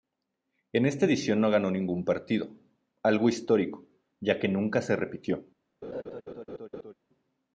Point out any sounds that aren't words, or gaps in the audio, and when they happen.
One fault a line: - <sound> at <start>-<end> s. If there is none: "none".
- laugh at 5.8-6.9 s